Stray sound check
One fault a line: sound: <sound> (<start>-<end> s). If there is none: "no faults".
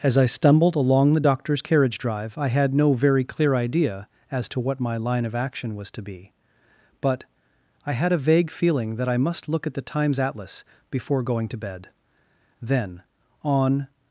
no faults